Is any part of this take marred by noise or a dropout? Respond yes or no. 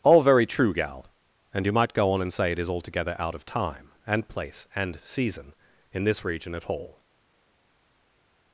no